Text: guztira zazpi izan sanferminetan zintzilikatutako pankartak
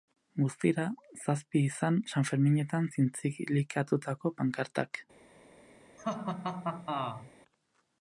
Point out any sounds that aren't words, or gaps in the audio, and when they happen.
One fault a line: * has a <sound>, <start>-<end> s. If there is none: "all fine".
* has a laugh, 6.0-7.3 s